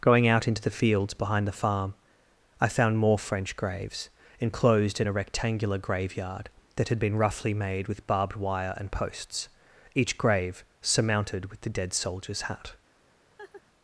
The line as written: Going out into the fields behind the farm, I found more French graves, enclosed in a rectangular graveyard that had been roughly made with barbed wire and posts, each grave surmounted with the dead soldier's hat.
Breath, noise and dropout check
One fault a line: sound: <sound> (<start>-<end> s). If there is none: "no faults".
sound: laugh (13.4-13.6 s)